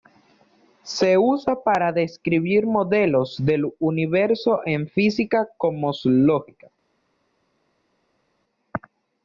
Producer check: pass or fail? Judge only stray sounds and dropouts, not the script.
pass